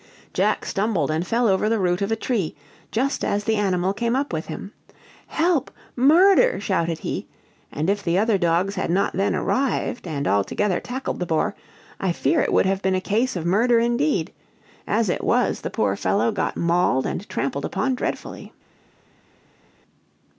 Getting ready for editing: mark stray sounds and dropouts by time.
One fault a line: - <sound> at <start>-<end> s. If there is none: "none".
none